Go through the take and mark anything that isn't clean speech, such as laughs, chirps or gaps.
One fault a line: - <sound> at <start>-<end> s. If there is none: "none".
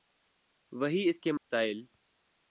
- dropout at 1.4-1.5 s